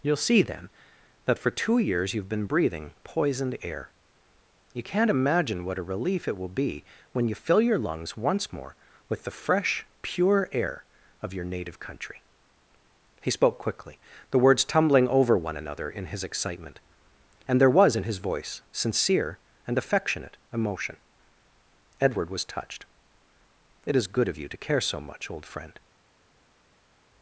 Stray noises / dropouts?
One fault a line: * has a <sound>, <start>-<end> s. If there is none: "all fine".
all fine